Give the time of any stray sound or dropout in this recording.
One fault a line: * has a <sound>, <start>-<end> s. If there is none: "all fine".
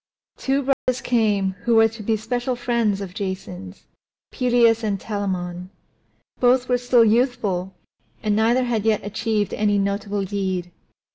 * has a dropout, 0.7-0.9 s